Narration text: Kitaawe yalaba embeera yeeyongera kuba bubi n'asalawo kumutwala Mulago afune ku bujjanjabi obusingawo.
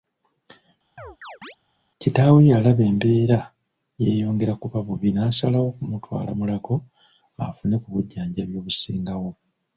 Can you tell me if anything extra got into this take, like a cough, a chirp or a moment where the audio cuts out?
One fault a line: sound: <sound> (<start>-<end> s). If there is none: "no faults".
sound: chirp (1.0-1.6 s)